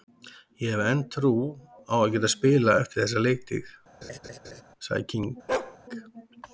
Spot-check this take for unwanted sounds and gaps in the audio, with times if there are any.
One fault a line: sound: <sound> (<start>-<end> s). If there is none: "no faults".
sound: laugh (4.0-4.6 s)
sound: bark (5.5-5.8 s)